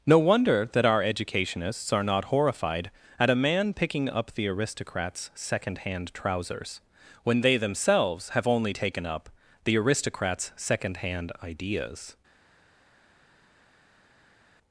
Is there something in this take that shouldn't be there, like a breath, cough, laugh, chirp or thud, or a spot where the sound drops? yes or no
no